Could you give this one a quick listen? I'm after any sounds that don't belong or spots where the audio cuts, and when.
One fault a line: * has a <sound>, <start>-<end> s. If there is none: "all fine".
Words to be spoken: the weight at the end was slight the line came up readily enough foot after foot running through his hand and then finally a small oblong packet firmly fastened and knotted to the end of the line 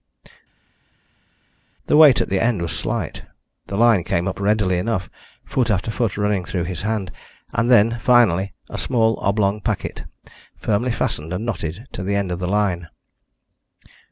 all fine